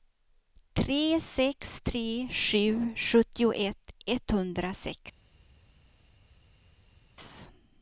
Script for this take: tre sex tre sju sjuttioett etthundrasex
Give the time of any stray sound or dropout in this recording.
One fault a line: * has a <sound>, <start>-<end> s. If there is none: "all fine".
all fine